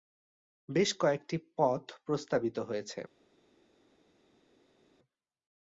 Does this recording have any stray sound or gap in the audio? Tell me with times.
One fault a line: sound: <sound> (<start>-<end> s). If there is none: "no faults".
no faults